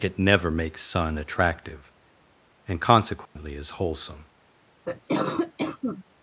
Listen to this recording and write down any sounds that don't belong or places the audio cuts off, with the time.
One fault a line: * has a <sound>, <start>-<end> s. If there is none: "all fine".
* has a dropout, 3.3-3.4 s
* has a cough, 4.8-6.0 s